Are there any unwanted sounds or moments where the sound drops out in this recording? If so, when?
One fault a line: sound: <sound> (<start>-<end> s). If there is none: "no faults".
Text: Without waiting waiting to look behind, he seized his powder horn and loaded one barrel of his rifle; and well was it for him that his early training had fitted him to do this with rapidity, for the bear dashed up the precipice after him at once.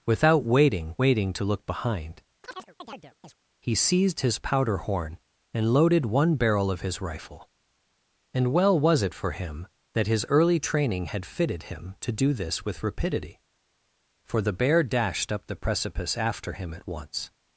sound: chirp (2.4-3.4 s)